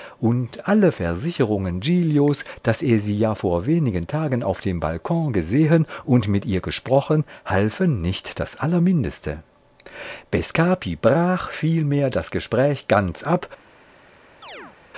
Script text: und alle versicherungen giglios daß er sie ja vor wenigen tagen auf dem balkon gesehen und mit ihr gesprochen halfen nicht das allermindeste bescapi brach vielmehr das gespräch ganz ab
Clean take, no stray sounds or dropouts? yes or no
no